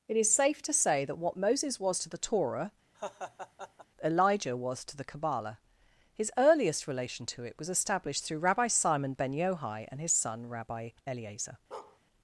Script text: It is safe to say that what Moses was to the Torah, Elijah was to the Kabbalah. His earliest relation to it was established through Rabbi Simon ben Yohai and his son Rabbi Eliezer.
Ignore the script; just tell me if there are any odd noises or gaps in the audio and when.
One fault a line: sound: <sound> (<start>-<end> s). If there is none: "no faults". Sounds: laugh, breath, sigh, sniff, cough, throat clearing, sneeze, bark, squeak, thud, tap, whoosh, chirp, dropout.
sound: laugh (2.9-3.9 s)
sound: bark (11.7-12.0 s)